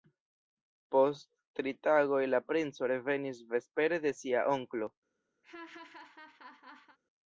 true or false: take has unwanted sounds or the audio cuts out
true